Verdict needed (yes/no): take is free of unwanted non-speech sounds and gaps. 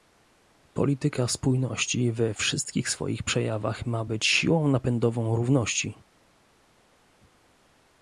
yes